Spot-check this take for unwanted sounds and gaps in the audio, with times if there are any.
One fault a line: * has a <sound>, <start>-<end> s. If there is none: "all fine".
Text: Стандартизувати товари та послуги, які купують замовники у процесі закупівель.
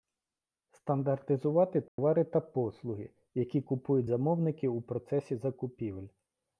* has a dropout, 1.9-2.0 s